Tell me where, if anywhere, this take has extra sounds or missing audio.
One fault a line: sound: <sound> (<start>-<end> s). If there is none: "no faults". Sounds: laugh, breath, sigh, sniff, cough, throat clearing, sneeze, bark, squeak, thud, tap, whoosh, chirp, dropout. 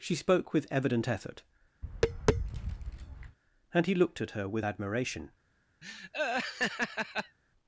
sound: tap (1.8-3.4 s)
sound: laugh (5.8-7.4 s)